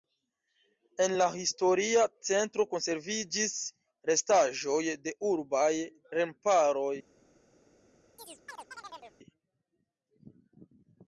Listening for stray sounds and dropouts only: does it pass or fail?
fail